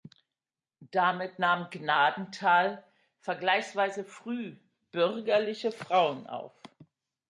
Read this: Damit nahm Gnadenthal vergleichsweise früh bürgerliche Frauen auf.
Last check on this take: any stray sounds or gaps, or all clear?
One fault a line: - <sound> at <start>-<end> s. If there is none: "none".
none